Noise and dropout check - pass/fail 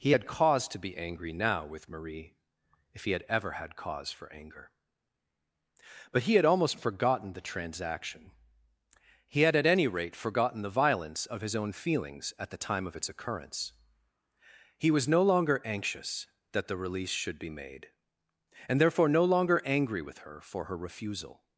pass